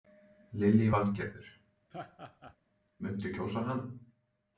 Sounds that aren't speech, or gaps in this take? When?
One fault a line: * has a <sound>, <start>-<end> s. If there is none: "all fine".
* has a laugh, 1.9-2.6 s